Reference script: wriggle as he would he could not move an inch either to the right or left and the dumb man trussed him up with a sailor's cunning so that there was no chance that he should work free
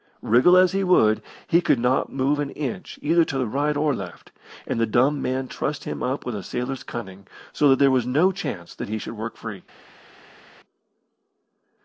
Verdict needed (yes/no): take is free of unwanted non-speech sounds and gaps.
yes